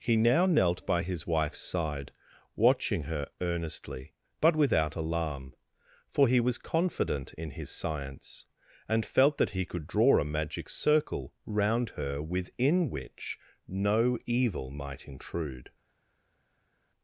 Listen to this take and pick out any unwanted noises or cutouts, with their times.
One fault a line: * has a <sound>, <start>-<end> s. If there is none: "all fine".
all fine